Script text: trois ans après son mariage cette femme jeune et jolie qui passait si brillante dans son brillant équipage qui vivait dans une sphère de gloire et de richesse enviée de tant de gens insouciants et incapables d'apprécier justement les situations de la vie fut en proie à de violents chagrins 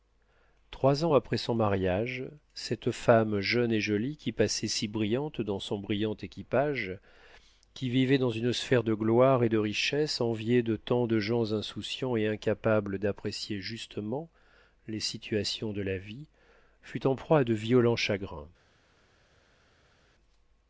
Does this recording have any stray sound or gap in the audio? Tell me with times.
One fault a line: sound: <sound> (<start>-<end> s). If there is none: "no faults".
no faults